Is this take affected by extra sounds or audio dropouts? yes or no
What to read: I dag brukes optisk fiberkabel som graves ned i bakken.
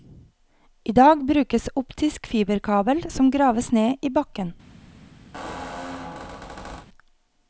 yes